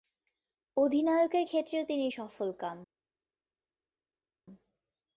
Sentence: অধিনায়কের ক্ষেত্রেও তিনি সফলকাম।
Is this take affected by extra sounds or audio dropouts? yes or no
no